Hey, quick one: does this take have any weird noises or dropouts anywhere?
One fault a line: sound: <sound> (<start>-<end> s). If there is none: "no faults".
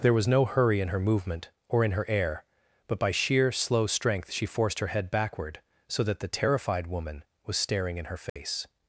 sound: dropout (8.3-8.4 s)